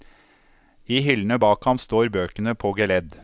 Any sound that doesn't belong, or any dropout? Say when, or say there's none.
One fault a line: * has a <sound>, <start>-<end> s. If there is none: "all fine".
all fine